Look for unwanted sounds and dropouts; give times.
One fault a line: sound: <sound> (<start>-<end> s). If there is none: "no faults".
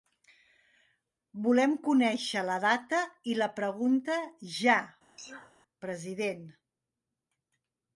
sound: sneeze (5.2-5.5 s)